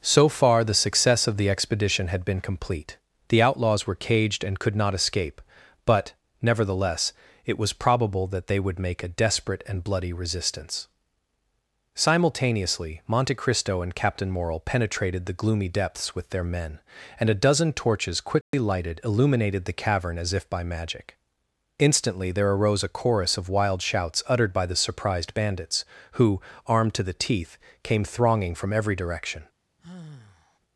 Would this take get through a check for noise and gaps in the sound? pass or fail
fail